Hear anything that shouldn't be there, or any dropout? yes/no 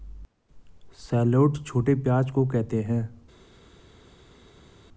no